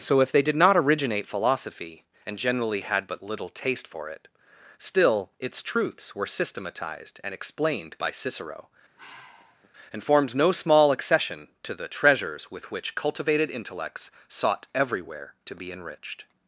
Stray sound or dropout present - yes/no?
yes